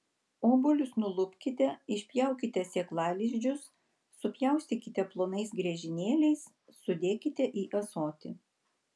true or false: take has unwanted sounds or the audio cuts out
false